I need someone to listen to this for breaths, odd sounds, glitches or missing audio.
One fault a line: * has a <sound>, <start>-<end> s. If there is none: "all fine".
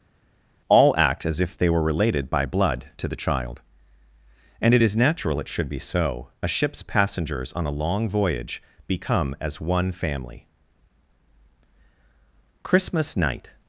all fine